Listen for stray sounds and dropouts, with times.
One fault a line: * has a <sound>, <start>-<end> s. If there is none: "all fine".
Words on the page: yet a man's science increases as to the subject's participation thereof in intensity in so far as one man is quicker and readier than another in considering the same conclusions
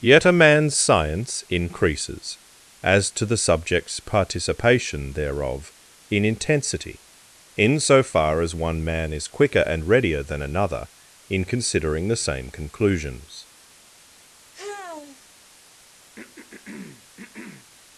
* has a sigh, 14.5-15.3 s
* has a throat clearing, 16.2-17.7 s